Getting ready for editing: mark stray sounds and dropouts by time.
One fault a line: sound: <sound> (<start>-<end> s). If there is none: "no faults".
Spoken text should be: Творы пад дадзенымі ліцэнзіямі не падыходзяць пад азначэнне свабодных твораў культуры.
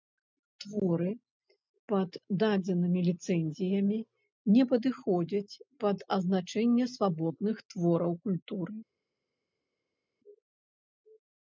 no faults